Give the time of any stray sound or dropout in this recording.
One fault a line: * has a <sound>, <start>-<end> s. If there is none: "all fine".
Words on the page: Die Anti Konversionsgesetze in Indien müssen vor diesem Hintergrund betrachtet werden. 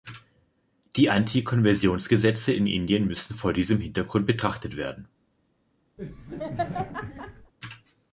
* has a laugh, 6.0-7.5 s